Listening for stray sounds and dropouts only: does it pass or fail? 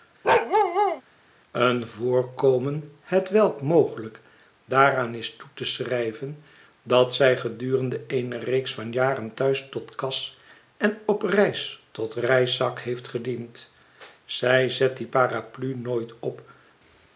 fail